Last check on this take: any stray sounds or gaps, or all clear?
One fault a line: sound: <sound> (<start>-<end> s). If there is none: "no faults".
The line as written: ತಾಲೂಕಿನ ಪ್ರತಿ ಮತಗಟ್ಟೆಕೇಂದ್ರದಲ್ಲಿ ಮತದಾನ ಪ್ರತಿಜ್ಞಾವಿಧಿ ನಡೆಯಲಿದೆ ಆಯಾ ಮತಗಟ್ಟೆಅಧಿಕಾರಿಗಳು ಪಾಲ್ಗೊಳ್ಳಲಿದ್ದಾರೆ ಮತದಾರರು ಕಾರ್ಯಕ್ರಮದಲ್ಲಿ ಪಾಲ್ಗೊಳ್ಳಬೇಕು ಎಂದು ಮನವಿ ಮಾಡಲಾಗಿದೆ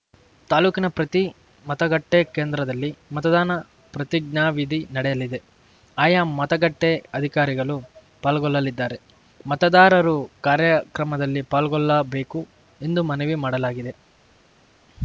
no faults